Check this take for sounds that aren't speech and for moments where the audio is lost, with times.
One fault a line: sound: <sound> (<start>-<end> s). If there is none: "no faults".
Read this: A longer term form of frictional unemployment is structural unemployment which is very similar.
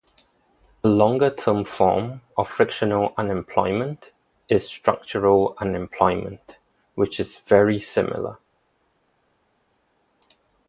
no faults